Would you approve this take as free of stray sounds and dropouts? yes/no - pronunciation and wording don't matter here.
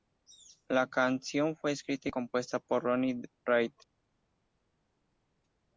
yes